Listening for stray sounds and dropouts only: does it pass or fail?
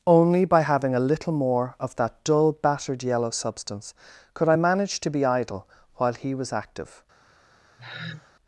fail